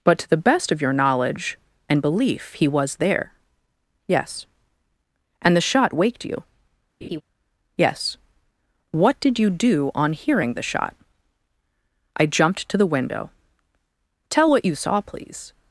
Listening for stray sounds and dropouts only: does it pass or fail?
fail